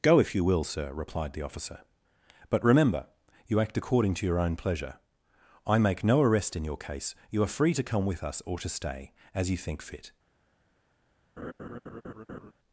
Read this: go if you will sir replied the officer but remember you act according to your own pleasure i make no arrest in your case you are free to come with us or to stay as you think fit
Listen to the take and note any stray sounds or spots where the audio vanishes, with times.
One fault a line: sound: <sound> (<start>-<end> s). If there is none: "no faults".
sound: laugh (11.4-12.5 s)